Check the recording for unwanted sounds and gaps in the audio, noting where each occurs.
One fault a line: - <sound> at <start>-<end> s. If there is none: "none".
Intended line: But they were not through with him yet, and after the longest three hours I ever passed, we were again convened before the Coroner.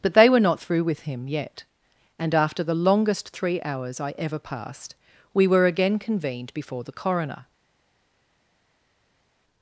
none